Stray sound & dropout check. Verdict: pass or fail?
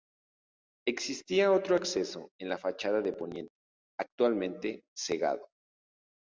pass